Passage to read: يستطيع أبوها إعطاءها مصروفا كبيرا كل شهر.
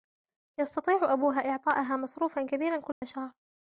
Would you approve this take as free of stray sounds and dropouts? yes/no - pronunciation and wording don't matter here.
no